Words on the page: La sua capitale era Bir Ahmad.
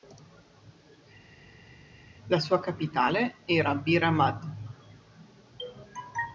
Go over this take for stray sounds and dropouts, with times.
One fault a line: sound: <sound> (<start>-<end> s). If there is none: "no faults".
no faults